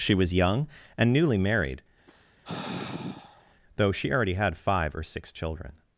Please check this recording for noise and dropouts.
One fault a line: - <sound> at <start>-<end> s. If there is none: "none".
- sigh at 2.1-3.6 s